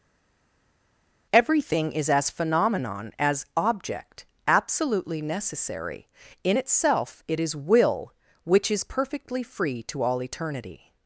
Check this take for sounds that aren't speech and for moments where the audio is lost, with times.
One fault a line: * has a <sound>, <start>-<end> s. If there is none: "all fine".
all fine